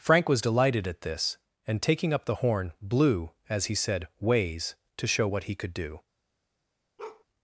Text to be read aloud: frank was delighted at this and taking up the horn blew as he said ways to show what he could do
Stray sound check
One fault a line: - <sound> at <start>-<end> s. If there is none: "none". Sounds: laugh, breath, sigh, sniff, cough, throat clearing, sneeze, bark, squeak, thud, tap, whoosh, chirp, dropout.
- bark at 7.0-7.2 s